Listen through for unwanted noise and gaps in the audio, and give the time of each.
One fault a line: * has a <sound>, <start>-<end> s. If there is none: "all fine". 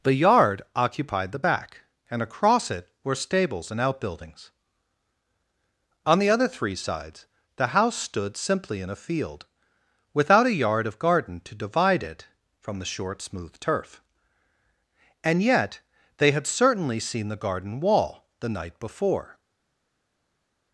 all fine